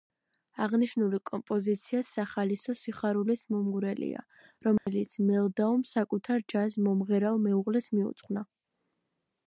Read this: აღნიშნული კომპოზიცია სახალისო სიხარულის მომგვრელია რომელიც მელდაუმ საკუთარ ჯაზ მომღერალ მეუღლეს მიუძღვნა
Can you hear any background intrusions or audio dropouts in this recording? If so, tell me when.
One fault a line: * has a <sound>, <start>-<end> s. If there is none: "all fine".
* has a dropout, 4.8-4.9 s